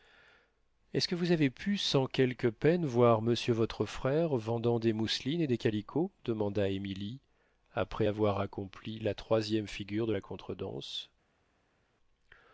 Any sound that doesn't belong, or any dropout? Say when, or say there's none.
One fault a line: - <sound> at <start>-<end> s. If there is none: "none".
none